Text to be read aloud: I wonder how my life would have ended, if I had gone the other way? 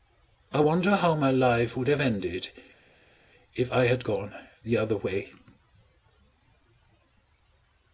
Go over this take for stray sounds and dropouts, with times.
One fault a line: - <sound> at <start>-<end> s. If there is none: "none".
none